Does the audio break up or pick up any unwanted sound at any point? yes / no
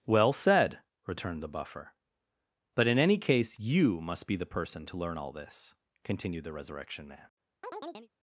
yes